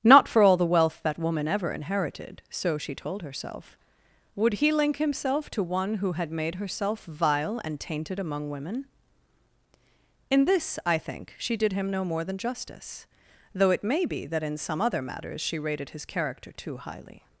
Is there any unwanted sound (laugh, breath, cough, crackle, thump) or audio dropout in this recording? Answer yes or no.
no